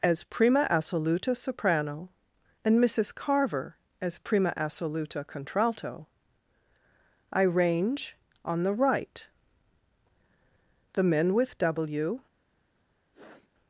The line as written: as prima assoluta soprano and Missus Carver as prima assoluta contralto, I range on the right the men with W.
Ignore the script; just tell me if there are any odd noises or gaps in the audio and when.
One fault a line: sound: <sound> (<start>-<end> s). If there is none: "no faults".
sound: sniff (13.1-13.5 s)